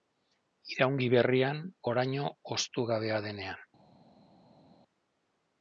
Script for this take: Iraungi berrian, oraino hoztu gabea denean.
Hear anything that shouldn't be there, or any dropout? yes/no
no